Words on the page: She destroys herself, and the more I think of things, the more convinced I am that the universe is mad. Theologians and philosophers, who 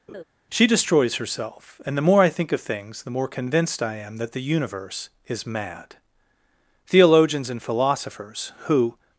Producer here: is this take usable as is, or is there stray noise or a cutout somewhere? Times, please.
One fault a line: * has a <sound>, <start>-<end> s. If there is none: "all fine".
* has a laugh, 0.1-0.2 s